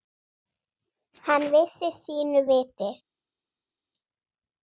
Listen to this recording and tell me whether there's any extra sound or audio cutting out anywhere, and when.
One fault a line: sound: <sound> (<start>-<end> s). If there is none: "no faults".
no faults